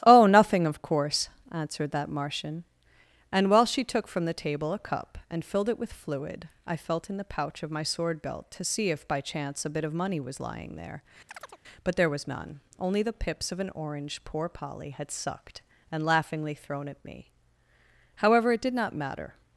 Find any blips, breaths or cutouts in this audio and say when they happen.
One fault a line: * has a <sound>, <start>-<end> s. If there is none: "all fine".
* has a chirp, 11.3-11.6 s